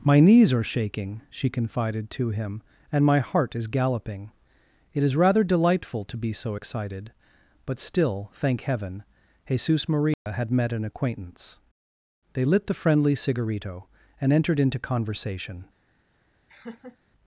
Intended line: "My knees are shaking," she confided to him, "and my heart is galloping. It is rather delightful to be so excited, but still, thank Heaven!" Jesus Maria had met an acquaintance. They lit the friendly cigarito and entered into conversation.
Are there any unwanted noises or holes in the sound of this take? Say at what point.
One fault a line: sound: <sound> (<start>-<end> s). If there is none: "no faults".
sound: dropout (10.1-10.3 s)
sound: laugh (16.5-17.0 s)